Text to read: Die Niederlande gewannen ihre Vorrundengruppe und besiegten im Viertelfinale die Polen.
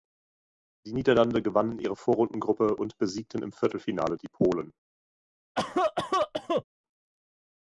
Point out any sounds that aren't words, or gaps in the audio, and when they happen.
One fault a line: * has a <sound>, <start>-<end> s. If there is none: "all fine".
* has a cough, 5.6-6.6 s